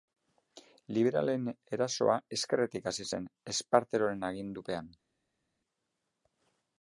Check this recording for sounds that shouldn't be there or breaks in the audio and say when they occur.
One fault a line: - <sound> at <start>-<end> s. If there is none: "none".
none